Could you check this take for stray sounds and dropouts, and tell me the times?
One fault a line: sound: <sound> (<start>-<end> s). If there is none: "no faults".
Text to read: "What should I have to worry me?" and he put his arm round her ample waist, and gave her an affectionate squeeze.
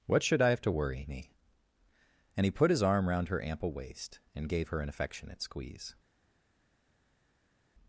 no faults